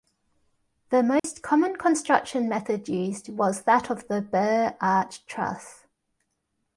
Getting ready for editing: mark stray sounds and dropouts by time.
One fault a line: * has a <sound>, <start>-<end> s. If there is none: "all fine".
* has a dropout, 1.2-1.2 s